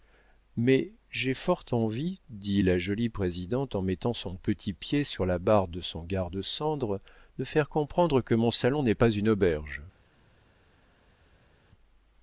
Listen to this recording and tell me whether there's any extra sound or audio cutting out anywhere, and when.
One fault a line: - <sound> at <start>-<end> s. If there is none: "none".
none